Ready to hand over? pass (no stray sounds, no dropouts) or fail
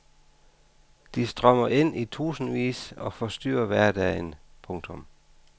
pass